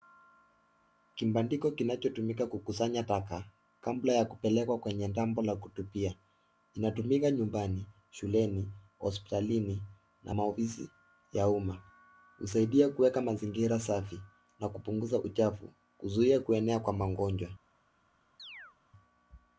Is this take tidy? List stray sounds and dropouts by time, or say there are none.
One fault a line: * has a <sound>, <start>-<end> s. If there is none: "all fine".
* has a chirp, 18.4-18.8 s